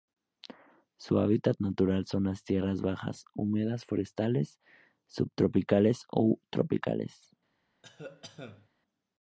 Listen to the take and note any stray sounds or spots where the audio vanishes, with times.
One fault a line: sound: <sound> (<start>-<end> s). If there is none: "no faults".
sound: cough (7.8-8.7 s)